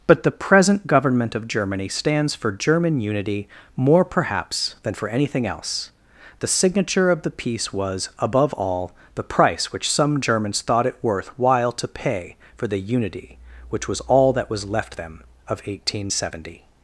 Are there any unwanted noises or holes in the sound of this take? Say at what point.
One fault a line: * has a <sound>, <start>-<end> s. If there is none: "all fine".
all fine